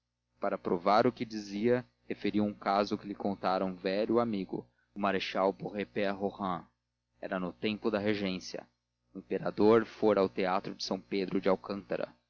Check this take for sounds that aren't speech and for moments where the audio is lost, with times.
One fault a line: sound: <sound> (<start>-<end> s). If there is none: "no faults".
no faults